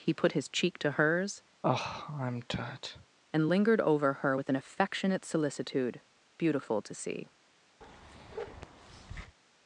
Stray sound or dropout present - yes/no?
yes